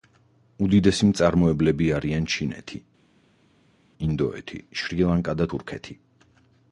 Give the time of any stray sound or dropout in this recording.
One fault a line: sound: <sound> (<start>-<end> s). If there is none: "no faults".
no faults